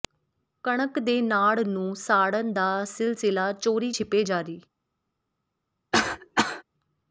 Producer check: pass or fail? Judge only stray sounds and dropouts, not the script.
fail